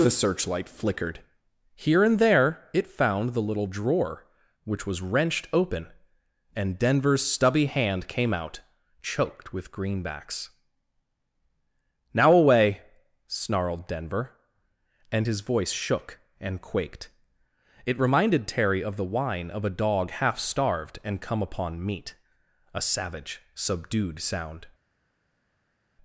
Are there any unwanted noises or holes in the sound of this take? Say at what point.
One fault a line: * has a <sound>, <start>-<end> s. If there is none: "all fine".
all fine